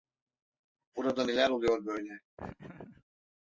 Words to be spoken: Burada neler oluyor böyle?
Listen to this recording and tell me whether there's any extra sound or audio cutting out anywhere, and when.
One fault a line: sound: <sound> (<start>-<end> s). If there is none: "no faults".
sound: laugh (2.4-3.0 s)